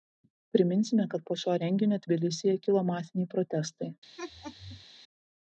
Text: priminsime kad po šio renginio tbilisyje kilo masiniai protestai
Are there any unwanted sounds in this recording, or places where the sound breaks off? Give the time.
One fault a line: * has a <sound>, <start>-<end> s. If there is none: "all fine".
* has a laugh, 4.2-4.8 s